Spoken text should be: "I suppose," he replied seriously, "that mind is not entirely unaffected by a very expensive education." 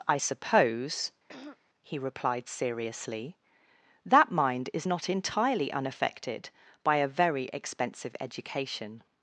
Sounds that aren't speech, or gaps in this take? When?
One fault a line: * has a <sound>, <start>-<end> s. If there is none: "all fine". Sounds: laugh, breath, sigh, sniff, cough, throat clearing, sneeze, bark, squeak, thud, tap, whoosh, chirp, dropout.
* has a throat clearing, 1.3-1.6 s